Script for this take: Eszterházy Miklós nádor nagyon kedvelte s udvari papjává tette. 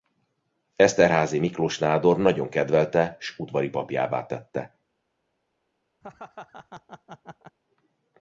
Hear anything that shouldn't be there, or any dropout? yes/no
yes